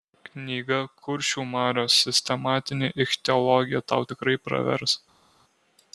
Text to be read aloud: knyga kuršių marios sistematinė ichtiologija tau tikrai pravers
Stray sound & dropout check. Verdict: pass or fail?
pass